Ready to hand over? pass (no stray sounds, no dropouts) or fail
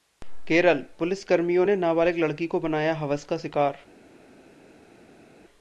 pass